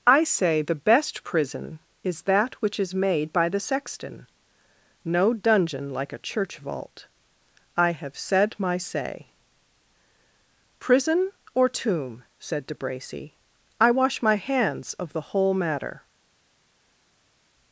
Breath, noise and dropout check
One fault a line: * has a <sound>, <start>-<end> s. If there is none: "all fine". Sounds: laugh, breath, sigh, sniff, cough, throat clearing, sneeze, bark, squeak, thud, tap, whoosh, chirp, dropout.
all fine